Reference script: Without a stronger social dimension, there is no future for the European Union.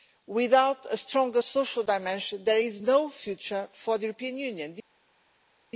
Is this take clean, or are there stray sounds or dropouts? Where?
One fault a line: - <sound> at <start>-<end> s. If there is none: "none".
none